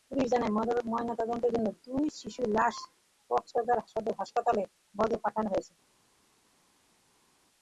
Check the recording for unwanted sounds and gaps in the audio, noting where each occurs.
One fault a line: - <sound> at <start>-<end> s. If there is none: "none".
none